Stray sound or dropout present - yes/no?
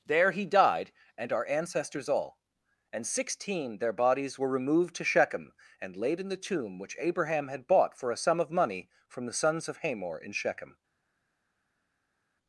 no